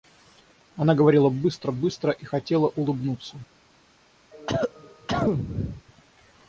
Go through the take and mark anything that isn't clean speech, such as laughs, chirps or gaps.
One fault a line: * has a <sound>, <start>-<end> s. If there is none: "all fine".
* has a cough, 4.3-5.8 s